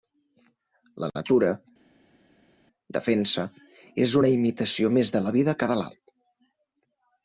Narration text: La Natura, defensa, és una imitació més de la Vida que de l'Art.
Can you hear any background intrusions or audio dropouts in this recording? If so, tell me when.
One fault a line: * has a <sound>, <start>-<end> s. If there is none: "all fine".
all fine